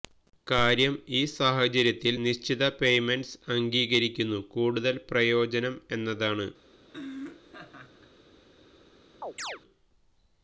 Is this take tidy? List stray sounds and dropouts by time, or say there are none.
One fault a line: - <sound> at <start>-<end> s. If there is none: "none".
- laugh at 6.9-8.1 s
- chirp at 9.2-9.6 s